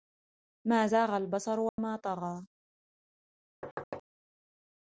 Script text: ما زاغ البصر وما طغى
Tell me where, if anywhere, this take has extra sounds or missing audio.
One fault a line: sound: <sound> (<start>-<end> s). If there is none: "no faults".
sound: dropout (1.7-1.8 s)
sound: thud (3.6-4.0 s)